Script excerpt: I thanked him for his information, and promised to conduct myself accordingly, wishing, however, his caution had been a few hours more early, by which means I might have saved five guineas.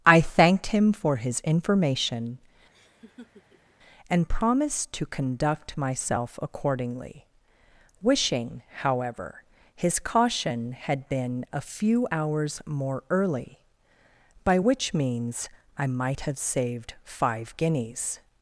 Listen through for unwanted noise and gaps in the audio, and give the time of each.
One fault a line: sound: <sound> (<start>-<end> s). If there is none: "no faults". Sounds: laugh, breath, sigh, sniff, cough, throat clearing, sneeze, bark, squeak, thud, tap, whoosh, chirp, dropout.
sound: laugh (2.7-3.7 s)